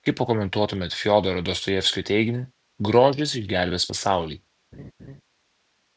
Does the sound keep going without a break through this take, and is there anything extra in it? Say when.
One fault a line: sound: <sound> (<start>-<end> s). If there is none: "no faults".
sound: laugh (4.7-5.2 s)